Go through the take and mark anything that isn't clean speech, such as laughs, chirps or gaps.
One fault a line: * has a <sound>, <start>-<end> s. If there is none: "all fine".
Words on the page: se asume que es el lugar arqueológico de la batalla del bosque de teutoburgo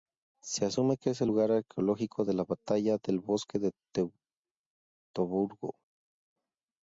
all fine